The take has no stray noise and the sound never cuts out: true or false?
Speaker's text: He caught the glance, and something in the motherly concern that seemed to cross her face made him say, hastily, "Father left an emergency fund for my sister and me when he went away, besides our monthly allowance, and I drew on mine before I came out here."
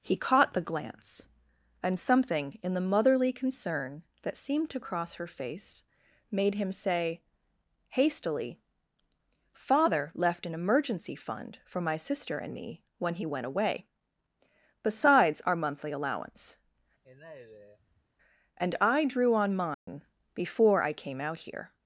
false